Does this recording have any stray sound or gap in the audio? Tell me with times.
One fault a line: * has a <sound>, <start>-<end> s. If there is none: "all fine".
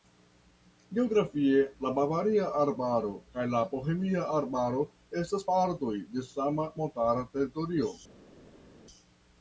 all fine